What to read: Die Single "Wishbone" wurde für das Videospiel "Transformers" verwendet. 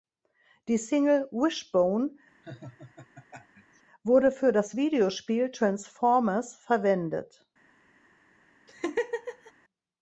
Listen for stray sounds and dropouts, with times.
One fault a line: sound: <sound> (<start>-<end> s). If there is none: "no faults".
sound: laugh (2.4-3.8 s)
sound: laugh (8.7-9.5 s)